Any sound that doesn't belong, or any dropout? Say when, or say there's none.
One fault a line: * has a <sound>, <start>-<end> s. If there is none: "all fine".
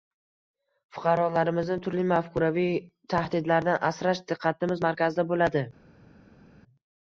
all fine